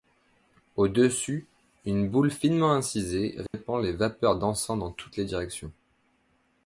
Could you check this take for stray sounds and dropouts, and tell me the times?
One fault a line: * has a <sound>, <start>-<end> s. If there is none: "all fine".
* has a dropout, 3.5-3.5 s